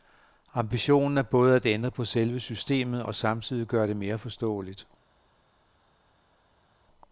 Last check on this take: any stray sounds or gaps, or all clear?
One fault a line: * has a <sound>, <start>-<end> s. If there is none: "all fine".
all fine